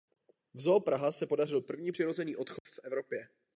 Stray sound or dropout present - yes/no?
yes